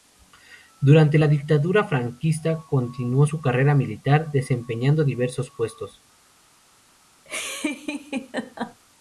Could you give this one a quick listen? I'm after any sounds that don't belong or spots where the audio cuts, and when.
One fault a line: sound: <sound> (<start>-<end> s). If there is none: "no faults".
sound: laugh (7.3-8.8 s)